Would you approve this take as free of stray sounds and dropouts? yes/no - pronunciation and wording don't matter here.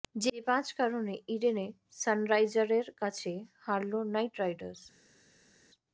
yes